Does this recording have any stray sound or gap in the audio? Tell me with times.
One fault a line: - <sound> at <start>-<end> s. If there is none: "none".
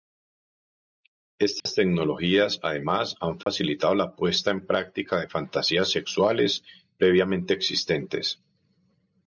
- dropout at 1.6-1.7 s
- dropout at 3.4-3.5 s